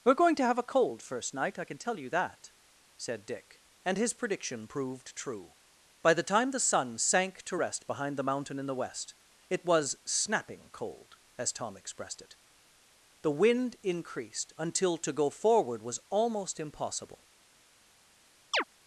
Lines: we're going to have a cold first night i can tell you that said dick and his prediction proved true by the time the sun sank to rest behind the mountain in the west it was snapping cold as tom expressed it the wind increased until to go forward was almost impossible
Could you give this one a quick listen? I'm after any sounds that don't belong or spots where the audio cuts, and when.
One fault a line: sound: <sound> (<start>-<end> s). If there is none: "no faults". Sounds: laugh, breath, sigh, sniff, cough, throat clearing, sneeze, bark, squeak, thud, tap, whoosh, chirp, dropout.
sound: chirp (18.5-18.6 s)